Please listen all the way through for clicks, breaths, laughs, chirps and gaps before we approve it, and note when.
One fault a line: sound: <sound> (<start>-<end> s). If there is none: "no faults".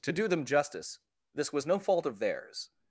no faults